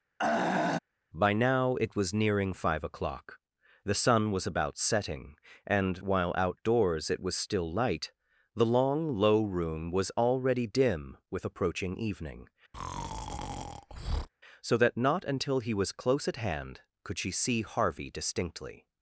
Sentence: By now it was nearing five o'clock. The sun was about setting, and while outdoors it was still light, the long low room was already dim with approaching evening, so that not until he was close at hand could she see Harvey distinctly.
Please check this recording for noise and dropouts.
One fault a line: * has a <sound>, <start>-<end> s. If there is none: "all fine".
* has a throat clearing, 0.2-0.8 s
* has a breath, 12.7-14.3 s